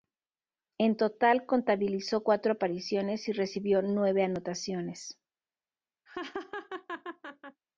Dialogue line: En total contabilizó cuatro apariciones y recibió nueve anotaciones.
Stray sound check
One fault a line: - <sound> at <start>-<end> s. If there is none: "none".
- laugh at 6.1-7.6 s